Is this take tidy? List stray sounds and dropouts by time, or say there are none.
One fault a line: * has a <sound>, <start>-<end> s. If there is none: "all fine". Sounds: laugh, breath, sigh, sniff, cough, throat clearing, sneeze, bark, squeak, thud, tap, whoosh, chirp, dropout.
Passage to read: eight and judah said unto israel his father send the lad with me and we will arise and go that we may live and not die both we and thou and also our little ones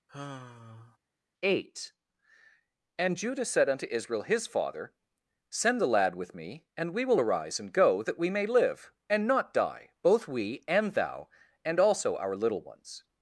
* has a sigh, 0.1-1.0 s